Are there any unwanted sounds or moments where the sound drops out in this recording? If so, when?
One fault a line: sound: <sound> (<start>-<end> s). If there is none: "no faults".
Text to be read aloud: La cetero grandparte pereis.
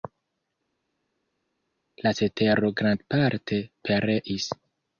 no faults